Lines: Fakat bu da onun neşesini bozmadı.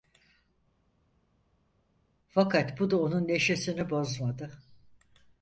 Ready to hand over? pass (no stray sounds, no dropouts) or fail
pass